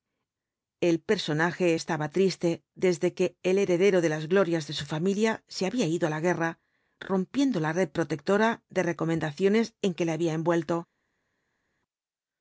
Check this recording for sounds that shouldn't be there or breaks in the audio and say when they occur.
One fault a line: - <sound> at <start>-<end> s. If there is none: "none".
none